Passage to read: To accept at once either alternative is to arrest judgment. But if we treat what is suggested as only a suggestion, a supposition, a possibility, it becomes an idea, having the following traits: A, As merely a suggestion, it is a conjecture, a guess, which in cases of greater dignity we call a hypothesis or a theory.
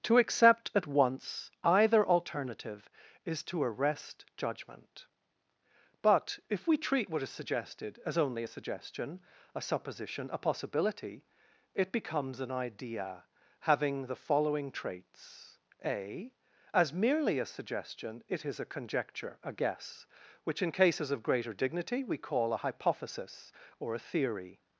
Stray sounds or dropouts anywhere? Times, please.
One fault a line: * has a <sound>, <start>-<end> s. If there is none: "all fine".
all fine